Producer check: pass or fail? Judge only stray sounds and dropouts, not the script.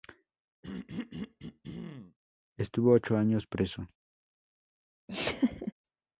fail